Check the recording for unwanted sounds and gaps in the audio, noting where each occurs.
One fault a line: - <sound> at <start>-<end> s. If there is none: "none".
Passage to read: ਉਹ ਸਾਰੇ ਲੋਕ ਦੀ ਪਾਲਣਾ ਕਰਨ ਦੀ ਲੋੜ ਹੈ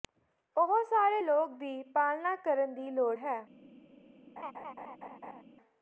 - laugh at 4.4-5.4 s